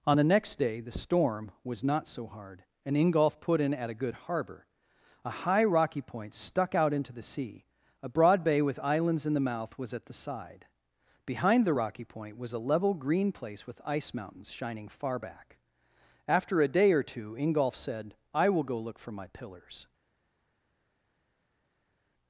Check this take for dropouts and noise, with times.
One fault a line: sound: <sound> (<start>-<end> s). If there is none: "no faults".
no faults